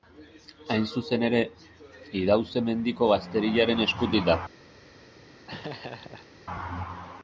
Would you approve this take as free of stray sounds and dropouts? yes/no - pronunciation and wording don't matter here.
no